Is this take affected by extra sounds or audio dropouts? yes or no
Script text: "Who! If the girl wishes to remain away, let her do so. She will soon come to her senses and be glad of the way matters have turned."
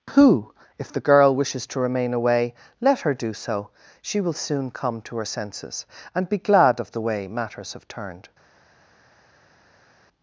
no